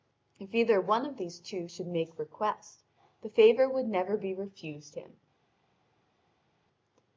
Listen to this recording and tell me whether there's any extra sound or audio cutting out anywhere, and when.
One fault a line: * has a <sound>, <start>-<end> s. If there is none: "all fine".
all fine